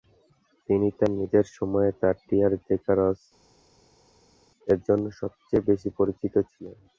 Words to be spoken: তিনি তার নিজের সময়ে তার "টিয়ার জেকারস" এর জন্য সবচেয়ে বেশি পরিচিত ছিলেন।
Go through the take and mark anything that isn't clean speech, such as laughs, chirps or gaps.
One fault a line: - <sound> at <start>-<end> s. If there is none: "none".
none